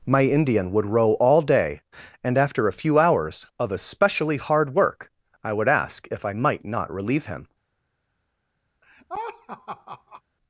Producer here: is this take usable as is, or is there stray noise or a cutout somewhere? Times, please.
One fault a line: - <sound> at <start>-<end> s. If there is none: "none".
- laugh at 8.8-10.2 s